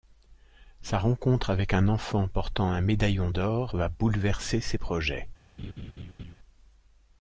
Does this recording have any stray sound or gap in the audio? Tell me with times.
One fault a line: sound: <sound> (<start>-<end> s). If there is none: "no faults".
sound: laugh (5.6-6.3 s)